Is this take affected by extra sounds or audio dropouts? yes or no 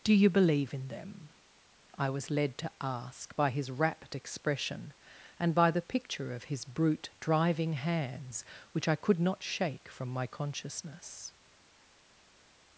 no